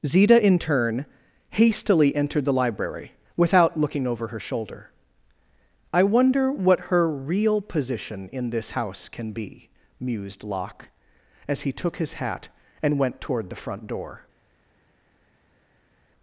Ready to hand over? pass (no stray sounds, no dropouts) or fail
pass